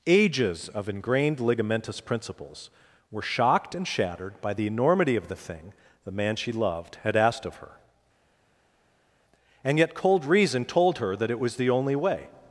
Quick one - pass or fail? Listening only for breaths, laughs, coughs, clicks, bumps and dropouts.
pass